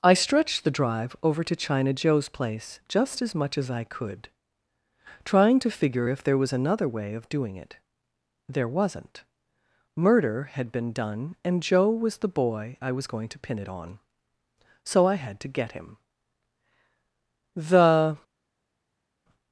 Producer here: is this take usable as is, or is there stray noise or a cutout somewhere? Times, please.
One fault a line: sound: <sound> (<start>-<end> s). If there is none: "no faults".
no faults